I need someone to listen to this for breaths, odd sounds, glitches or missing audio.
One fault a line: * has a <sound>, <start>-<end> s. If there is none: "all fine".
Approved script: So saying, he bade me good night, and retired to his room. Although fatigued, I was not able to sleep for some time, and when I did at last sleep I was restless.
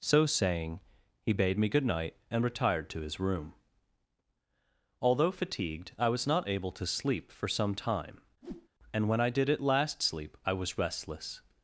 * has a whoosh, 8.4-8.7 s